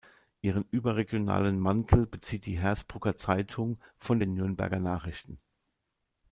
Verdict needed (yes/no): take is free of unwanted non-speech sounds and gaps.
yes